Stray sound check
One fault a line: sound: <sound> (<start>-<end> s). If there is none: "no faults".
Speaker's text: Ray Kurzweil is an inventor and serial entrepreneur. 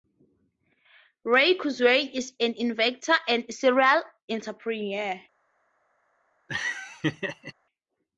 sound: laugh (6.5-7.5 s)